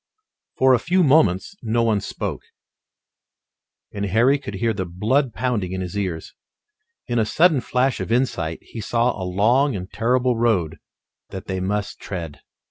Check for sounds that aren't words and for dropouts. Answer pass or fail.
pass